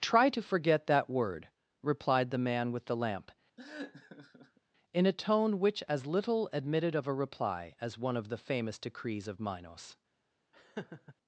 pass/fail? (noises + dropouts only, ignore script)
fail